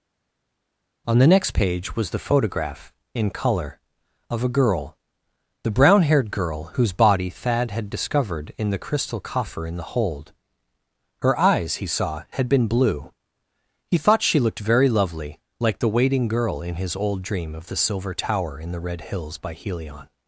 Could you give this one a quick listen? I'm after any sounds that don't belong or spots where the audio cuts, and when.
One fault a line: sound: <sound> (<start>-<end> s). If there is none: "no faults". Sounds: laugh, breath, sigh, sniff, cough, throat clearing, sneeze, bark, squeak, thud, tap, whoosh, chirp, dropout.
no faults